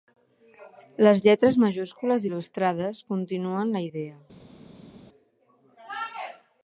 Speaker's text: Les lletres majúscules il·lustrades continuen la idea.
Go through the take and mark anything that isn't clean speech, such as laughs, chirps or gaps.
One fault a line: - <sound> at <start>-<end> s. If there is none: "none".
none